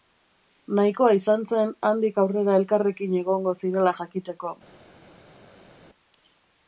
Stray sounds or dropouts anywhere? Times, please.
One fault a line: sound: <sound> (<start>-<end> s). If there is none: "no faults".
no faults